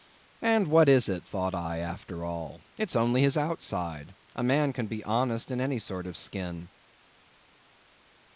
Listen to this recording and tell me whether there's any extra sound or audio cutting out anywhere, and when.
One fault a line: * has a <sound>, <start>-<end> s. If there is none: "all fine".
all fine